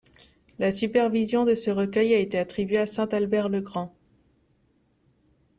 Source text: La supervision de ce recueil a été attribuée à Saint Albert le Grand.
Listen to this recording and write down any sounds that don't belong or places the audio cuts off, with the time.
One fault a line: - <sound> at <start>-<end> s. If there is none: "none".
none